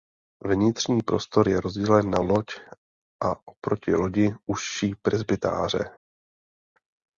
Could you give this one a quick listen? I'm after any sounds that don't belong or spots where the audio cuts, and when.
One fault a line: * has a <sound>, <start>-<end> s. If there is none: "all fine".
all fine